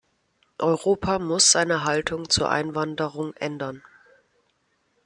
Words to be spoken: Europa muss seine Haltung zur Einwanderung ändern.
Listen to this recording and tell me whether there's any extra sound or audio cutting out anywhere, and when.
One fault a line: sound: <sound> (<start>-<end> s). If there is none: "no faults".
no faults